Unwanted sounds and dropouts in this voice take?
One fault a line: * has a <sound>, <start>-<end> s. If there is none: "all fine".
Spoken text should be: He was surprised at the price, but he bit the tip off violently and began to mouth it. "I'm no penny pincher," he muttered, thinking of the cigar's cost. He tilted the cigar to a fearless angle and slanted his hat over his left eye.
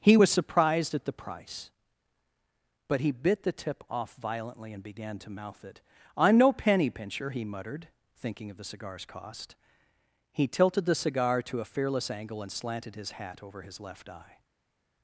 all fine